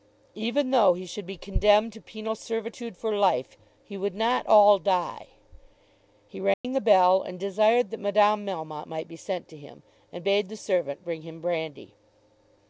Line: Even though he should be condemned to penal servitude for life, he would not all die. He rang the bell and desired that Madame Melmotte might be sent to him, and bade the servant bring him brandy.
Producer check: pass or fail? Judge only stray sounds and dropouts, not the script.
fail